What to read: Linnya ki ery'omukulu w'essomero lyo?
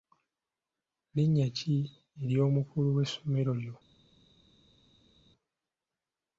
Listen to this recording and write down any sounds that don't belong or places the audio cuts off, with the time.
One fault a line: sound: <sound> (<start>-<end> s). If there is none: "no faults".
no faults